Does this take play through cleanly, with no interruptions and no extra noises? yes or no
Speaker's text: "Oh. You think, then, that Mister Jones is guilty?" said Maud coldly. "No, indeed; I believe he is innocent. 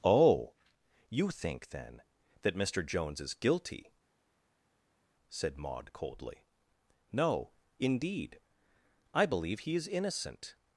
yes